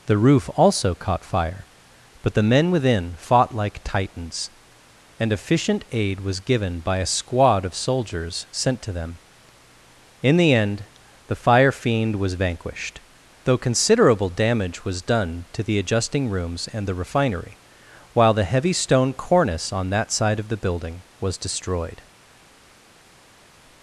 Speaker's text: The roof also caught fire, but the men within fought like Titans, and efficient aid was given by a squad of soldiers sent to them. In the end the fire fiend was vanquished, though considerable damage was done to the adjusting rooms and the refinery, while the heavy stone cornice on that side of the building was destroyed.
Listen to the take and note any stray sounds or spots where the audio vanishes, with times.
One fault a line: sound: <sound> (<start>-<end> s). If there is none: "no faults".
no faults